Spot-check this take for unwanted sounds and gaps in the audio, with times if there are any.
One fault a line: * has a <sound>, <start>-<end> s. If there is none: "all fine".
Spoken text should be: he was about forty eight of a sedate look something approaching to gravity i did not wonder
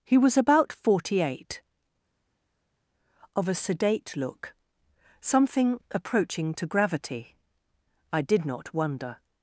all fine